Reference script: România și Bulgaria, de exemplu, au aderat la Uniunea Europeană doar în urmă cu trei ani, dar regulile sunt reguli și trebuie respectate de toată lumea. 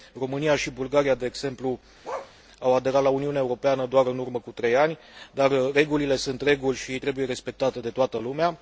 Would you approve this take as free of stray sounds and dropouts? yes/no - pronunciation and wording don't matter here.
no